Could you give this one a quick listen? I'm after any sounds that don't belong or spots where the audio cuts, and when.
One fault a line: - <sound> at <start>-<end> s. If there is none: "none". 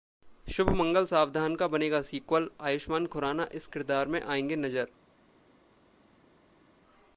none